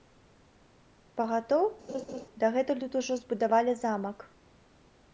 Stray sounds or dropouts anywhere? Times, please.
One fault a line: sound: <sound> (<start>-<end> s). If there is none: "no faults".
sound: laugh (1.9-2.2 s)